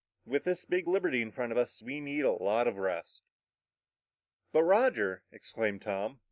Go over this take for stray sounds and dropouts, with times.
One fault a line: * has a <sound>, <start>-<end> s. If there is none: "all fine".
all fine